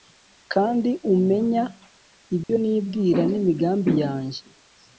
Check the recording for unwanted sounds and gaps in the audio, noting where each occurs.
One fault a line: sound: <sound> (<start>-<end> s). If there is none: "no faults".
sound: dropout (2.4-2.5 s)